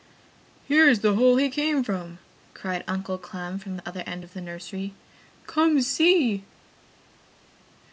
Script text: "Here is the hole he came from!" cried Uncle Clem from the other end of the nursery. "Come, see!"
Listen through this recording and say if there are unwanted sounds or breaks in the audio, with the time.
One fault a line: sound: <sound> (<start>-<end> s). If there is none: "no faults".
no faults